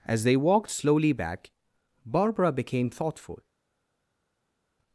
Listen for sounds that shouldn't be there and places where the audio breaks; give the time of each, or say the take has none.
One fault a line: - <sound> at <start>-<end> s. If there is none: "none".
none